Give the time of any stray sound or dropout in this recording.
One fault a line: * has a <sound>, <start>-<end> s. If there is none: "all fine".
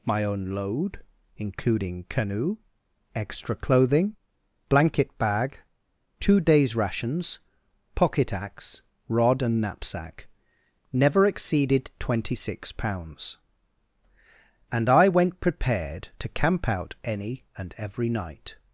all fine